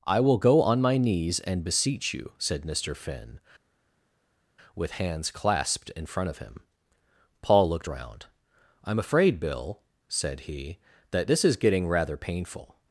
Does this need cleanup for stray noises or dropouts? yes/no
no